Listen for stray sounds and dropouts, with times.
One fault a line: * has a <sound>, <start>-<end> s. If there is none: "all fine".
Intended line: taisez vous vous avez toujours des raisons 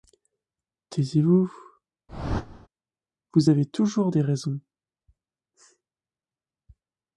* has a whoosh, 2.1-2.7 s